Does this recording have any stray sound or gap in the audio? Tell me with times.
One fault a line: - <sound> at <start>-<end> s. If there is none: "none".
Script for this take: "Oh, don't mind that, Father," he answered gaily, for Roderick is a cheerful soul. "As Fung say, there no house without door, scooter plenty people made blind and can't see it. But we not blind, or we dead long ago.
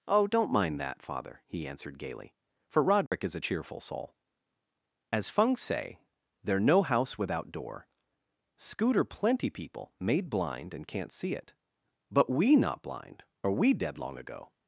- dropout at 3.1-3.1 s